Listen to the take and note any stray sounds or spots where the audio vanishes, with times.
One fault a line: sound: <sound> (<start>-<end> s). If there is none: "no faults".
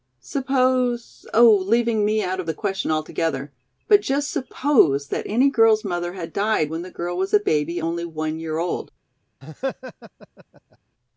sound: laugh (9.4-10.8 s)